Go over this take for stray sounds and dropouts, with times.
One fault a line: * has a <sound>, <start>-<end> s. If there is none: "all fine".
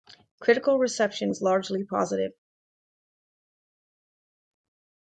all fine